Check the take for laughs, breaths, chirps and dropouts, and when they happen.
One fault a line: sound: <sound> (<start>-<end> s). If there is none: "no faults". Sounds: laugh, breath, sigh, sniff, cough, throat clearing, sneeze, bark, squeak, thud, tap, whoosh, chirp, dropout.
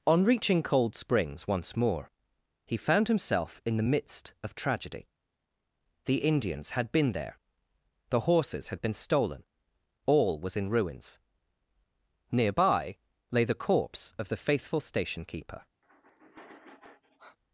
sound: sigh (15.8-17.4 s)